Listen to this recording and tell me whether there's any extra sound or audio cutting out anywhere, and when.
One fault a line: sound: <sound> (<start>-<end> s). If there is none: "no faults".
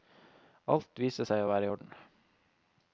no faults